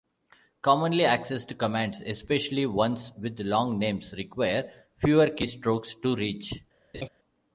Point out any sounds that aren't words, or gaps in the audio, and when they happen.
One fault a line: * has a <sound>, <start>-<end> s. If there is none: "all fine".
* has a laugh, 6.9-7.1 s